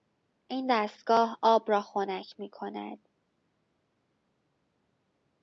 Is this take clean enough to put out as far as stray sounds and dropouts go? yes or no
yes